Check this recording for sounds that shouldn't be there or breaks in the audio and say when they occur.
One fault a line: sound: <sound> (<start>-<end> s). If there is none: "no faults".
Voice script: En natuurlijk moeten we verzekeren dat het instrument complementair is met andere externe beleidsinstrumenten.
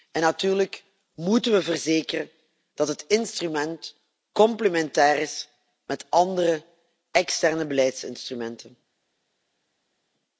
no faults